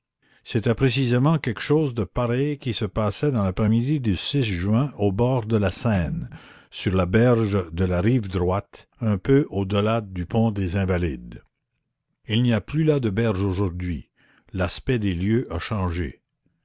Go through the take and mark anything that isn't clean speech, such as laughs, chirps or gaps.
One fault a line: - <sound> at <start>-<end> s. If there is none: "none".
none